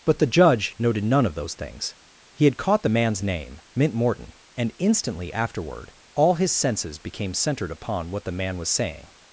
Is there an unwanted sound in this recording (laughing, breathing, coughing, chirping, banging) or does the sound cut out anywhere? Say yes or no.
no